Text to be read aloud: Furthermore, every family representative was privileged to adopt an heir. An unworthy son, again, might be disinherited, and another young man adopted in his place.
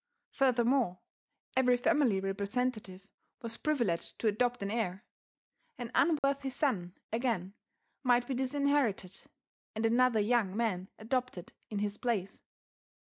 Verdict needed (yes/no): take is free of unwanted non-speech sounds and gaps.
no